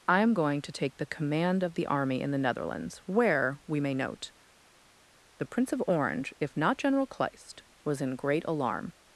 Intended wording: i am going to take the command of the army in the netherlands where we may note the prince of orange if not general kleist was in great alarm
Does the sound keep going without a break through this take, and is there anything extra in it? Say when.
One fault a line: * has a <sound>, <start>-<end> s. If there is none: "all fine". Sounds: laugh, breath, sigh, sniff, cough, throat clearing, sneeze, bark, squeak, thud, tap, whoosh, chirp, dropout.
all fine